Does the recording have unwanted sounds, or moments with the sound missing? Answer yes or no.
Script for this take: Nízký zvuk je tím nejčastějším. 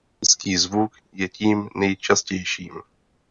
no